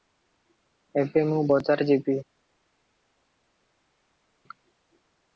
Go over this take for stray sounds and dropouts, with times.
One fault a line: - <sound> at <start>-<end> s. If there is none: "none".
none